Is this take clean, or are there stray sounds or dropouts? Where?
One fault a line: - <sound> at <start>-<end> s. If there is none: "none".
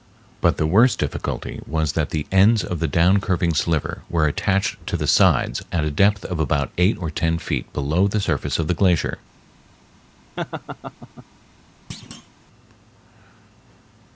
- laugh at 10.4-11.3 s
- thud at 11.9-12.3 s